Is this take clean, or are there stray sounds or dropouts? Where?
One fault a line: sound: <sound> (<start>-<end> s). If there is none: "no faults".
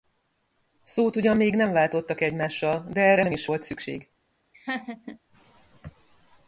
sound: laugh (4.5-5.2 s)